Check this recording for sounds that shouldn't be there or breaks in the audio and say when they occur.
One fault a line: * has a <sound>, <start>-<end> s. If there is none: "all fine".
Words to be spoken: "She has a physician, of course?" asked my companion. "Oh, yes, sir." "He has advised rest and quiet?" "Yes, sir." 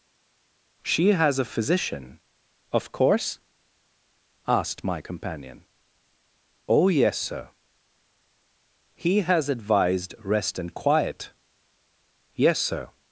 all fine